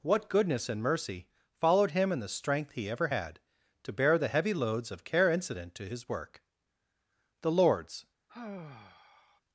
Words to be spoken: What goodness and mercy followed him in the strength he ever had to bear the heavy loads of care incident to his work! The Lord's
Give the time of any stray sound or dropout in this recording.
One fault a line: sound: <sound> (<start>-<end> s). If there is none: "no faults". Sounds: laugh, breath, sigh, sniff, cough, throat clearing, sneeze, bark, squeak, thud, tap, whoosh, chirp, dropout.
sound: sigh (8.3-9.4 s)